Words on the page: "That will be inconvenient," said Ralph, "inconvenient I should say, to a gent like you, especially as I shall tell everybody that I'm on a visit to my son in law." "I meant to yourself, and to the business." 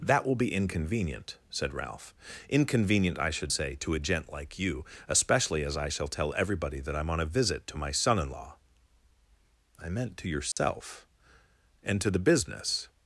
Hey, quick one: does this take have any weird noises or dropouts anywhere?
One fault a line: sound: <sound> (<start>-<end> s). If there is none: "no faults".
sound: dropout (10.5-10.6 s)